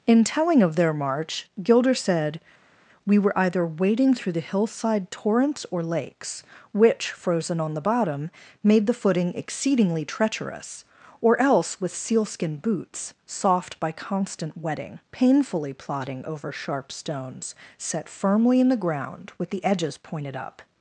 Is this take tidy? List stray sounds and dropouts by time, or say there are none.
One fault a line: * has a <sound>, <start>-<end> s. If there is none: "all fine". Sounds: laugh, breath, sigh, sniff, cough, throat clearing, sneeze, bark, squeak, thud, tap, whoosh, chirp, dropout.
all fine